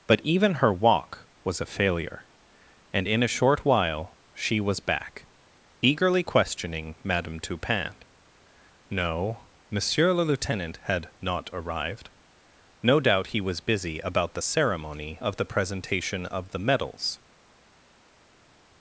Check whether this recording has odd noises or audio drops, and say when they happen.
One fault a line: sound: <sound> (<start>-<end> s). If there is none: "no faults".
no faults